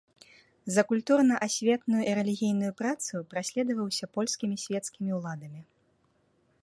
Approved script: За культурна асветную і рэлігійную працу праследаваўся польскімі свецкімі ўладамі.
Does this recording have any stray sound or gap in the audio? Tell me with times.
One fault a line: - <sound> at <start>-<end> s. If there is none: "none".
none